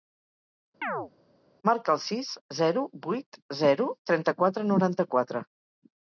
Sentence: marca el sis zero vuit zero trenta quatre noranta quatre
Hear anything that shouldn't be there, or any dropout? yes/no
yes